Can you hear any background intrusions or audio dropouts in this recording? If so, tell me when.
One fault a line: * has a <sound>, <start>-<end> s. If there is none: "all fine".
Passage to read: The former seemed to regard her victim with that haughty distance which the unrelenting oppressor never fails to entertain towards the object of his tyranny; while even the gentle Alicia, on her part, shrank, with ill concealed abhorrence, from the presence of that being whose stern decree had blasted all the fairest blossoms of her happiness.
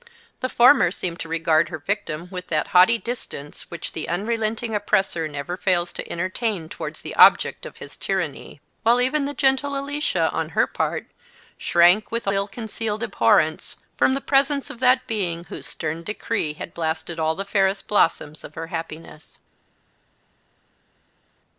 all fine